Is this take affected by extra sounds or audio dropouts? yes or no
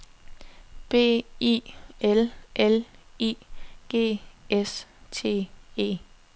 no